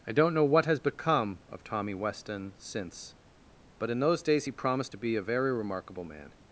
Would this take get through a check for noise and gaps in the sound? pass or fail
pass